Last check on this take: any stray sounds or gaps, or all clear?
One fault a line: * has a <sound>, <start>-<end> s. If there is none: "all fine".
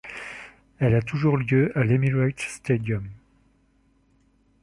all fine